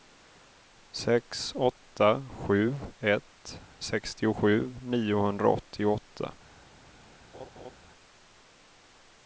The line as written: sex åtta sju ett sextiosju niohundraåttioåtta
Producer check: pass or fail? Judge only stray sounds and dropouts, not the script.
fail